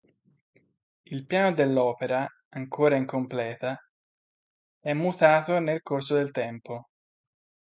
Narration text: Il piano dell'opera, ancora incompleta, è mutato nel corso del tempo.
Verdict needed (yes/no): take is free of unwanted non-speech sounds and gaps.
yes